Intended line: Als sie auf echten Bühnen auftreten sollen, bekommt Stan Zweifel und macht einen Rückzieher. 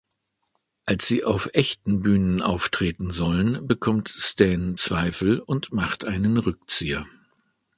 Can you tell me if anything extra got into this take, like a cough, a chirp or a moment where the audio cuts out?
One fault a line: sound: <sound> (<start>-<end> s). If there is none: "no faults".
no faults